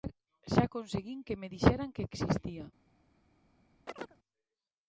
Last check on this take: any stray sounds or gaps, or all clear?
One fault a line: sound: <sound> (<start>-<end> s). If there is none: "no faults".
sound: chirp (3.9-4.2 s)